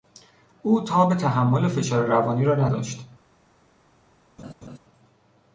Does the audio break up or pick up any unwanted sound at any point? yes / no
yes